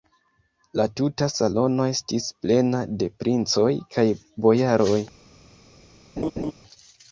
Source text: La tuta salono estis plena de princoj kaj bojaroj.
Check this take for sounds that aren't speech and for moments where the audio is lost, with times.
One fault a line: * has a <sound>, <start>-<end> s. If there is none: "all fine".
* has a laugh, 6.2-6.5 s